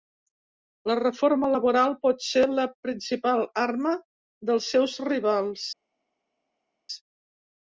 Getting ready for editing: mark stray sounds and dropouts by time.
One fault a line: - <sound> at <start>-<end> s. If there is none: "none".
none